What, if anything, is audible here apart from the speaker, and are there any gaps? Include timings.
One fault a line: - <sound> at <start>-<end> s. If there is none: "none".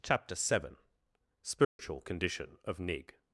- dropout at 1.6-1.8 s